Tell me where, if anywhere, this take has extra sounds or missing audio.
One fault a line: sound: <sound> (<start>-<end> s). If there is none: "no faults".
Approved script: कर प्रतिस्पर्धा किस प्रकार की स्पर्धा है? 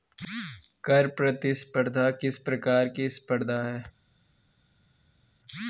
no faults